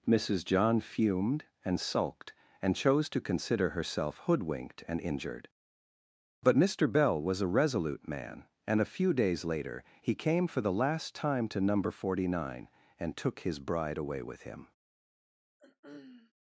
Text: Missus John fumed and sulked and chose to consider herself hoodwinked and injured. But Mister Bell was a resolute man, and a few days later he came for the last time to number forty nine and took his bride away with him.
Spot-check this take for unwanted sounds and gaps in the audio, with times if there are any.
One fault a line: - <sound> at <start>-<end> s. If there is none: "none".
- throat clearing at 15.6-16.3 s